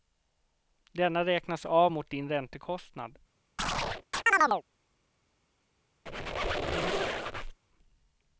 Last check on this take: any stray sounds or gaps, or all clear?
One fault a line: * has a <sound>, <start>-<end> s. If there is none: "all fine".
* has a chirp, 3.6-4.6 s
* has a squeak, 6.1-7.6 s